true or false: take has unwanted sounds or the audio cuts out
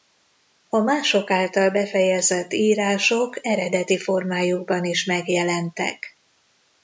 false